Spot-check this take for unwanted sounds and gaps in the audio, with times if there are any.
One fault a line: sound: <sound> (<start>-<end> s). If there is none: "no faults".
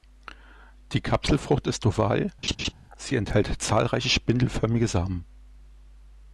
sound: laugh (2.4-2.7 s)